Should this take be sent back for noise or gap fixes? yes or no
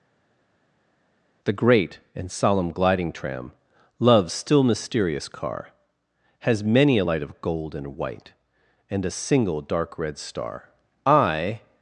no